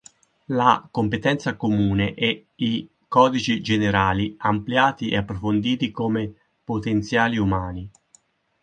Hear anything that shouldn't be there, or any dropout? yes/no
no